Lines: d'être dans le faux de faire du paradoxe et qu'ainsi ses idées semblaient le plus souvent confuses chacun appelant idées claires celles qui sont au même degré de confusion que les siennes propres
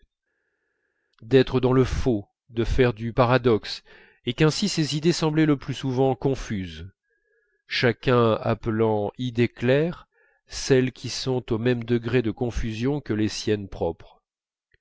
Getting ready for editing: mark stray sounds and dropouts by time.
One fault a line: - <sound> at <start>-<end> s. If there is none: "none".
none